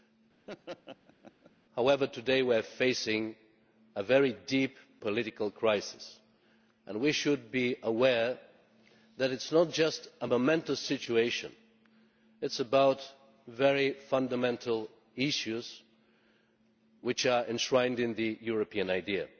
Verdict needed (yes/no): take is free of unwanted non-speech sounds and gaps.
no